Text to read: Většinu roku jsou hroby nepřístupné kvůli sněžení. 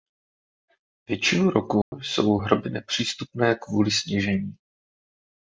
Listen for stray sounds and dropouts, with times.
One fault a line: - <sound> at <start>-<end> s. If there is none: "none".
- dropout at 1.8-1.9 s